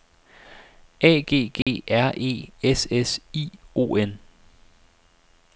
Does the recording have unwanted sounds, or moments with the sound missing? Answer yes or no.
yes